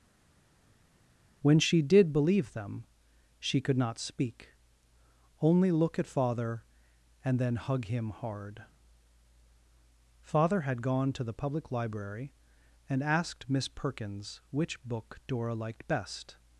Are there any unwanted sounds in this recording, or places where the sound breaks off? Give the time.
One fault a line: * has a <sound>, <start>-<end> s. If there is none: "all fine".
all fine